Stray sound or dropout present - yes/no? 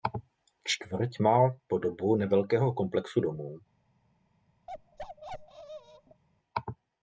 yes